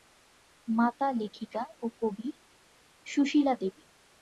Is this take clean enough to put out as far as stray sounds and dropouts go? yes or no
yes